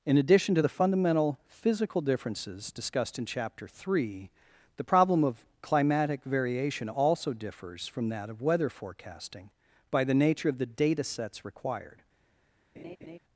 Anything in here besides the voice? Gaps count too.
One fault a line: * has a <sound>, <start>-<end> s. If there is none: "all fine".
* has a laugh, 12.8-13.2 s